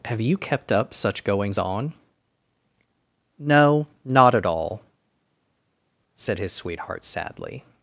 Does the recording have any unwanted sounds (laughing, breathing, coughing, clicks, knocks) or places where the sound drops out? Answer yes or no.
no